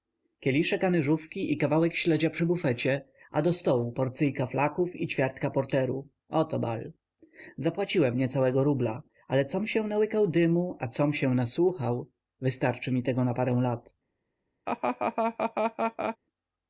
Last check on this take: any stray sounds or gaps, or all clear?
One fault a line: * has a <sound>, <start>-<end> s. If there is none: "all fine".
* has a laugh, 14.7-16.2 s